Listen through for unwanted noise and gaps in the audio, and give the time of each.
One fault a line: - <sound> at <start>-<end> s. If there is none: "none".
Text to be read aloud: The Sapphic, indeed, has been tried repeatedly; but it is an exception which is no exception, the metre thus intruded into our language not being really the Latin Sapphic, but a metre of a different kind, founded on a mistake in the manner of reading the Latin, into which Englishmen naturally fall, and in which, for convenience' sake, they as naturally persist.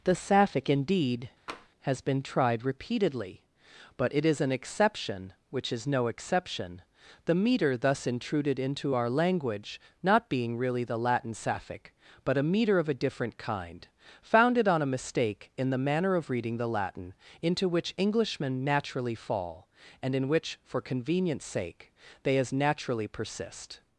- tap at 1.5-1.7 s